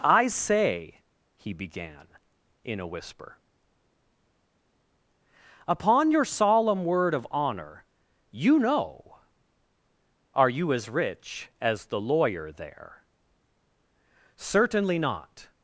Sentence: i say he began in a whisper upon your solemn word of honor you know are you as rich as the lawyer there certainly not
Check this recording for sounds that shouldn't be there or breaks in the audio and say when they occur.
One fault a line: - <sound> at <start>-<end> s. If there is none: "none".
none